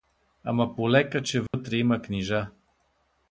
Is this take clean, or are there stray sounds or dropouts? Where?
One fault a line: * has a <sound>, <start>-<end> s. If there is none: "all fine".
* has a dropout, 1.5-1.5 s